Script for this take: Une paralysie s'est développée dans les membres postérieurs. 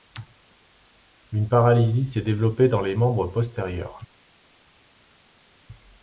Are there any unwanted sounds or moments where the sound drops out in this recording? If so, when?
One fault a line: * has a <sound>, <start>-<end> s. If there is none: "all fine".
all fine